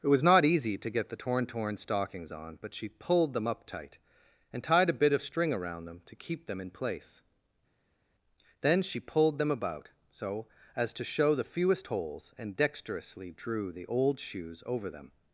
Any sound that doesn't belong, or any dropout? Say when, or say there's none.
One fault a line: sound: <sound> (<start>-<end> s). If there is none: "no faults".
no faults